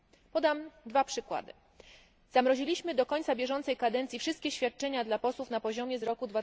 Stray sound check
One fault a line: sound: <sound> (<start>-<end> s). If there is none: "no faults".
no faults